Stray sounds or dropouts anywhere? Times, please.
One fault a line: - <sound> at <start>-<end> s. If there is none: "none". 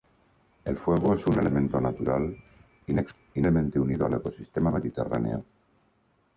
none